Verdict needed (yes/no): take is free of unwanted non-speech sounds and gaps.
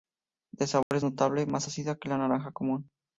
no